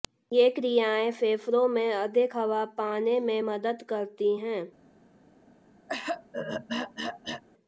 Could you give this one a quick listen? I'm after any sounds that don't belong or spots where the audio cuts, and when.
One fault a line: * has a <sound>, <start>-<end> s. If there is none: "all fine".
* has a throat clearing, 5.9-7.4 s